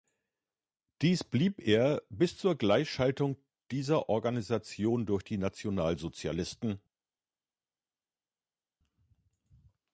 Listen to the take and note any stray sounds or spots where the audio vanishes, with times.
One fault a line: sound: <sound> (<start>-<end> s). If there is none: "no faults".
no faults